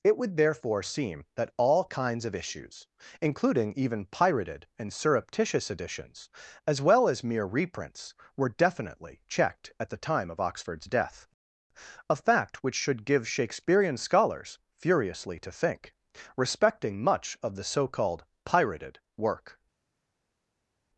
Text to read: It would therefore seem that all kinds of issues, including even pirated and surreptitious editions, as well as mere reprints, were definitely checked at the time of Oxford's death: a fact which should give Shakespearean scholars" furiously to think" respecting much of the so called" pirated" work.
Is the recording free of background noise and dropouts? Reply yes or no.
yes